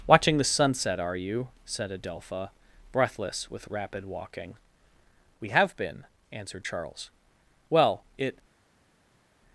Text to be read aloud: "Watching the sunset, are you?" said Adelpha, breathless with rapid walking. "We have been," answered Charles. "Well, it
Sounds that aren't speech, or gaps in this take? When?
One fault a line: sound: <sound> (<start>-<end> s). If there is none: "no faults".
no faults